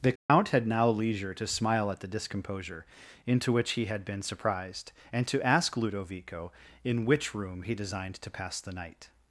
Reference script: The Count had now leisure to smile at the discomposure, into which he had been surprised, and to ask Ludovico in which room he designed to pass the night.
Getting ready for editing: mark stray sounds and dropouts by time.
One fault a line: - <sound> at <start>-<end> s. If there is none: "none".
- dropout at 0.2-0.3 s